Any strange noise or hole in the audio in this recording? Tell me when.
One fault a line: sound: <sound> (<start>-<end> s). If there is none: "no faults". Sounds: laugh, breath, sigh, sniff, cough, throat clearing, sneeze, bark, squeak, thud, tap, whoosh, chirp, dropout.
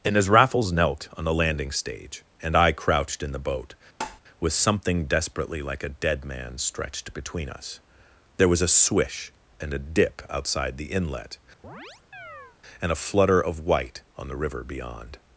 sound: tap (4.0-4.2 s)
sound: chirp (11.6-12.6 s)